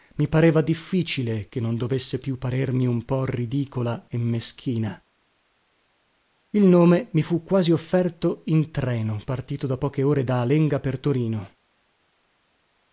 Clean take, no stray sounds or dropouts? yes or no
yes